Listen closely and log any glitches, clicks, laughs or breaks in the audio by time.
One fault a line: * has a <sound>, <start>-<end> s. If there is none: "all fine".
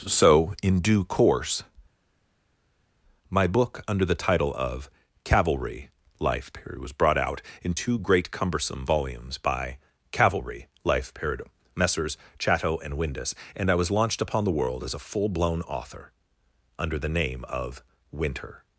all fine